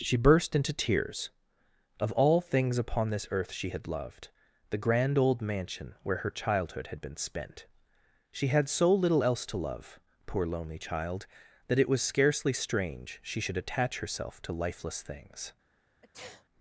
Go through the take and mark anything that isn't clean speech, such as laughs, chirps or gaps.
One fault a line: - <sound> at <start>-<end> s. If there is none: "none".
- sneeze at 16.0-16.4 s